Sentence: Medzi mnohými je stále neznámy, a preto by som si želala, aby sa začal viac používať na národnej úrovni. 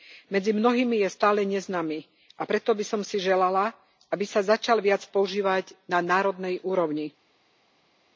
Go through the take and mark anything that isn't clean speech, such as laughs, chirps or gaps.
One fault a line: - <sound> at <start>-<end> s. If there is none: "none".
none